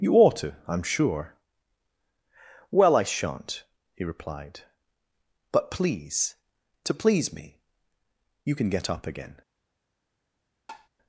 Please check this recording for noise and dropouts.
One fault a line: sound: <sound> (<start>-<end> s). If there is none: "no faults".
sound: tap (10.7-10.9 s)